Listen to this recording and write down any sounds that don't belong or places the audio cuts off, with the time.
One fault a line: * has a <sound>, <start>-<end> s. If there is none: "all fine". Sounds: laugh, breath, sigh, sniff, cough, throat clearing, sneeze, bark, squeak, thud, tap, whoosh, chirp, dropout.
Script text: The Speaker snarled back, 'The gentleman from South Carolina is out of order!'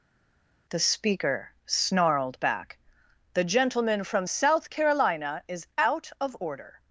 all fine